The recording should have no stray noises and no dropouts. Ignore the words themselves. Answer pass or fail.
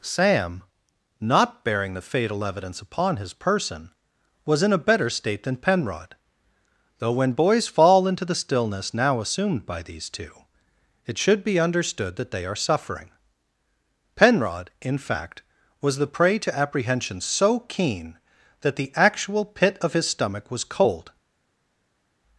pass